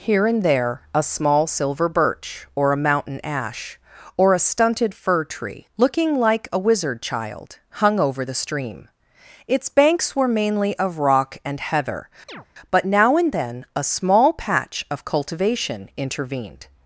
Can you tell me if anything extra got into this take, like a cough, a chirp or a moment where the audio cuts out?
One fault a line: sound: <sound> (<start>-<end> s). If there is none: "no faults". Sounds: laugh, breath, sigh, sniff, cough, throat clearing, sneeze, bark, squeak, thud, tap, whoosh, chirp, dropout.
sound: chirp (12.3-12.5 s)